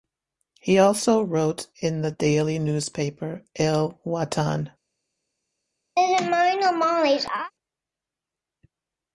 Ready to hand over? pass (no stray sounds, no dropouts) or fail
fail